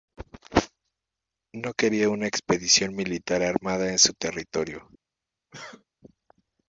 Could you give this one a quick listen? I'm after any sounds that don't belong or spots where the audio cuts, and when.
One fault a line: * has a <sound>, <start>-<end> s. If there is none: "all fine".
* has a cough, 5.5-5.8 s